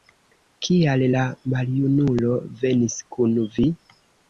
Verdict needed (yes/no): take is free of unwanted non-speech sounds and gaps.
yes